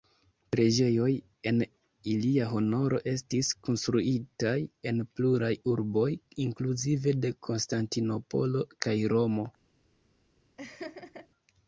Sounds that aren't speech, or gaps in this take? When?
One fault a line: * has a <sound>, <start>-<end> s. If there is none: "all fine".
* has a laugh, 10.6-11.3 s